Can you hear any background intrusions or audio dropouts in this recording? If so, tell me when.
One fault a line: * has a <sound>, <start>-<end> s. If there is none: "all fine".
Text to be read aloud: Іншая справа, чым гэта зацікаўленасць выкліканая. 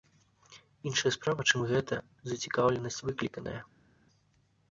all fine